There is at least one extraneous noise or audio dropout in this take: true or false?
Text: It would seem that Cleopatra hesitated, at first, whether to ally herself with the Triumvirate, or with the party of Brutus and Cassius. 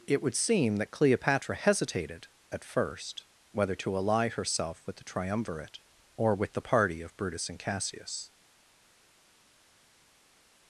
false